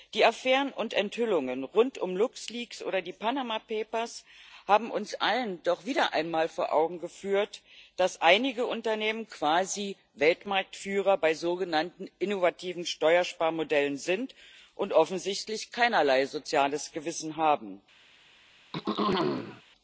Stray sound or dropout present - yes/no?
yes